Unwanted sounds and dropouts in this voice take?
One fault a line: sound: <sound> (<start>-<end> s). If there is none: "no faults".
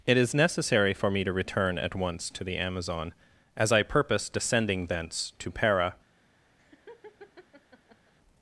sound: laugh (6.6-8.1 s)